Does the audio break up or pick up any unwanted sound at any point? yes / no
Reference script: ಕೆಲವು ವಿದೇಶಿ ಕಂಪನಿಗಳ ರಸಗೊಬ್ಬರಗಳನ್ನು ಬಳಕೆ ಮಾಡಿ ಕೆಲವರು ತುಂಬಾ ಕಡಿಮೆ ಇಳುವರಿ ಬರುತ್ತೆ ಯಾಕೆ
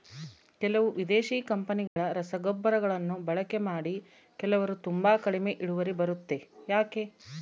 yes